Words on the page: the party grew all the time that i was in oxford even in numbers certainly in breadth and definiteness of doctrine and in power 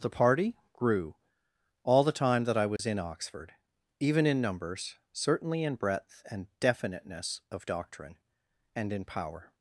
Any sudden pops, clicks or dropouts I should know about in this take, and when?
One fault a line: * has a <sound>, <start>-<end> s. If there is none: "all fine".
* has a dropout, 2.8-2.8 s